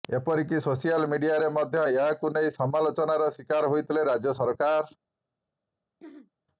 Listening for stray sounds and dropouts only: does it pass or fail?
fail